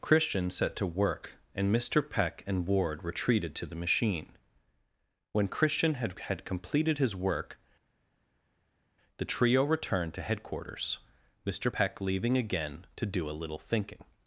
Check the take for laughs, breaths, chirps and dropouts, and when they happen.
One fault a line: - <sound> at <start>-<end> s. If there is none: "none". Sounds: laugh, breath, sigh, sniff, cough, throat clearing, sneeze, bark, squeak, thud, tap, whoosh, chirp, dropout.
none